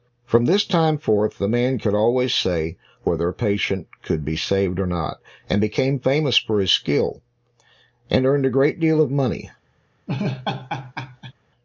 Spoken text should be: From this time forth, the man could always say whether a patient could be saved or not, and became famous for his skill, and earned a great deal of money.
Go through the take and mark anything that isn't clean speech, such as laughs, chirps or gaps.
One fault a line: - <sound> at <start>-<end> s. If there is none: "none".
- laugh at 10.1-11.3 s